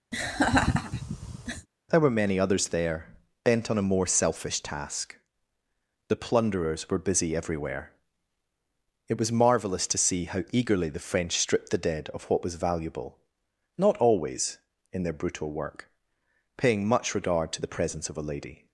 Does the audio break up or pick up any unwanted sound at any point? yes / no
yes